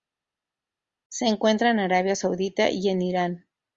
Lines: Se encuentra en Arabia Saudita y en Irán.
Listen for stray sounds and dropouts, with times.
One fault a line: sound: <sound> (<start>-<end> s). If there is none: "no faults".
no faults